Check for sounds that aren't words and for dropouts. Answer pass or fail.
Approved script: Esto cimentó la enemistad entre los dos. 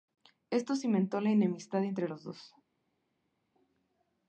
pass